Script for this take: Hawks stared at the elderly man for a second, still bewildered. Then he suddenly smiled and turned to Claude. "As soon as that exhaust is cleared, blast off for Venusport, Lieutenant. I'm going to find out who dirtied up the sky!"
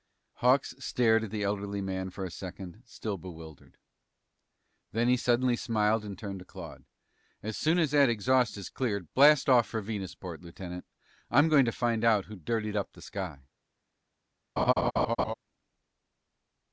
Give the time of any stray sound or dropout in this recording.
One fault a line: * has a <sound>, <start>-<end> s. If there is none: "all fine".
* has a laugh, 14.6-15.3 s